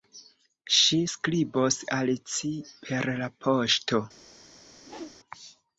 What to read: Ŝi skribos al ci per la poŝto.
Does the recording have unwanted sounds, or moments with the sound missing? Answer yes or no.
yes